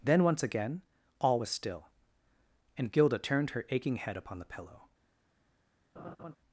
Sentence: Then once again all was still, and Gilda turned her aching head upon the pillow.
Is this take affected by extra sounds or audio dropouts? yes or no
yes